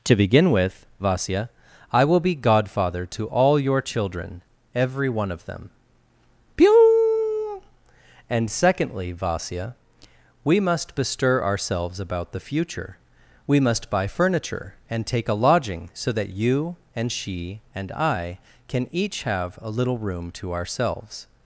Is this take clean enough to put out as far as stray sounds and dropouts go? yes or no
yes